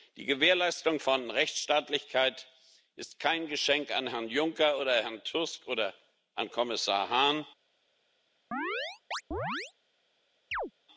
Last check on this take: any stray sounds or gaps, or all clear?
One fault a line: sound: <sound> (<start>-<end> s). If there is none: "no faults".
sound: chirp (8.5-9.7 s)
sound: chirp (10.5-10.7 s)